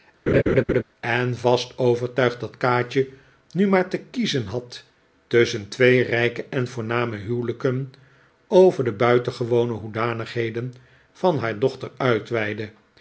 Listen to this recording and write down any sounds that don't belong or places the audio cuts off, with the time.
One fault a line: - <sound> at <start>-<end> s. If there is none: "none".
- laugh at 0.3-0.8 s